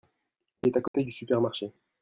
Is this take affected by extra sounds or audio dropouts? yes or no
yes